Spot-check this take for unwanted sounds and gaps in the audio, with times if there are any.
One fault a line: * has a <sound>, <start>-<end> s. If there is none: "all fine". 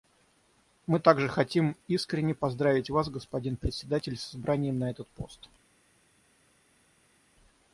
all fine